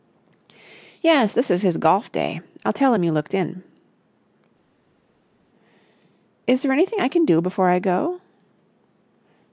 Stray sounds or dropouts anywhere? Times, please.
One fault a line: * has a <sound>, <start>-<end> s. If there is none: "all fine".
all fine